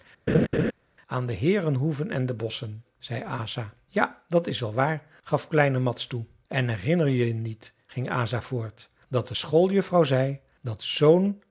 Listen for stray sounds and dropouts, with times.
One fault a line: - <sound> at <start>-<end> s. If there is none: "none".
- laugh at 0.3-0.7 s